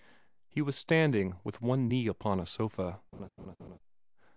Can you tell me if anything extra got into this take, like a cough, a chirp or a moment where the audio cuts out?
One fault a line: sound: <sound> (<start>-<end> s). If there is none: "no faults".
sound: laugh (3.1-3.8 s)